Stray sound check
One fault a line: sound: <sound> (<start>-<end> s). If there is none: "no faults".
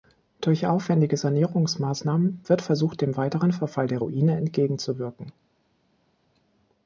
no faults